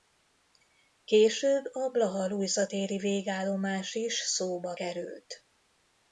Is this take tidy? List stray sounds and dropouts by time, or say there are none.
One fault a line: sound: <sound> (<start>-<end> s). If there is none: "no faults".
no faults